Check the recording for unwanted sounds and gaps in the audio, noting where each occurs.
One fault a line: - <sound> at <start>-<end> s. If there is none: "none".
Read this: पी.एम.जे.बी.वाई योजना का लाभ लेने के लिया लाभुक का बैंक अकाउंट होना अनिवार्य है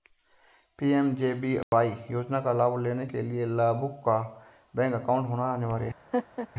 - dropout at 1.6-1.7 s
- laugh at 6.1-6.5 s